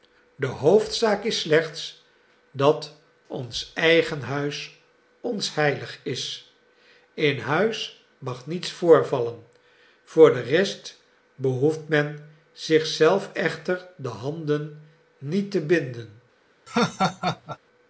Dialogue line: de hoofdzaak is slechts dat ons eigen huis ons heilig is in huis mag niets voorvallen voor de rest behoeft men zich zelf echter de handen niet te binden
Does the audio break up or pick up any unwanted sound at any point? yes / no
yes